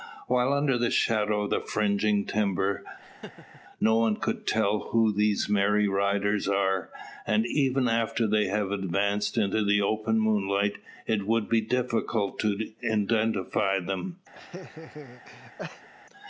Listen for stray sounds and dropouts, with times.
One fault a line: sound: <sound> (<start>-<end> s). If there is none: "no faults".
sound: laugh (3.0-3.6 s)
sound: laugh (14.3-15.9 s)